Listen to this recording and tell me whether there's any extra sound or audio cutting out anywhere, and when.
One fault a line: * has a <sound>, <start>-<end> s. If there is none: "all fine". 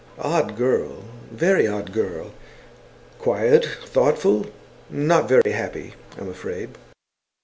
* has a dropout, 5.4-5.5 s